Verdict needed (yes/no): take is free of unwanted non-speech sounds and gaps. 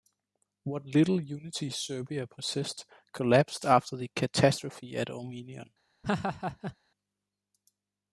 no